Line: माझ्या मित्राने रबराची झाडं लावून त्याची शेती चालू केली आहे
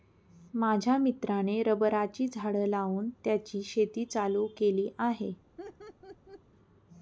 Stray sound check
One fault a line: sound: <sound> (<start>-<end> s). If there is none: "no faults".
sound: laugh (5.6-6.4 s)